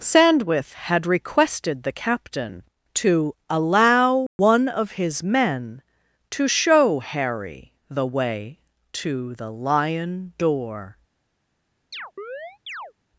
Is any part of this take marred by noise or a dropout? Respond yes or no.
yes